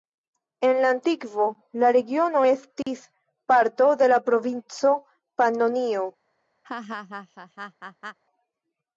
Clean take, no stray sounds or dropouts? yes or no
no